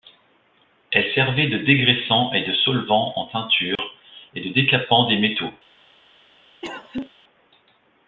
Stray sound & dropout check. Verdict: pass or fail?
fail